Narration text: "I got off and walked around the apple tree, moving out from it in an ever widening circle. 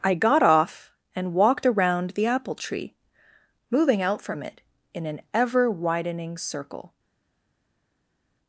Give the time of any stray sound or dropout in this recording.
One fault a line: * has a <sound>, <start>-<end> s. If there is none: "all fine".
all fine